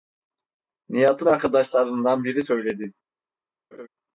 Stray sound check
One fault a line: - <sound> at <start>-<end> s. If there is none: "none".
- laugh at 3.7-3.9 s